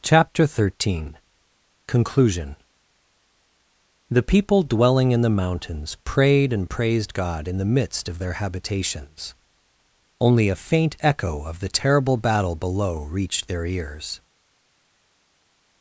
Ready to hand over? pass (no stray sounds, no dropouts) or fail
pass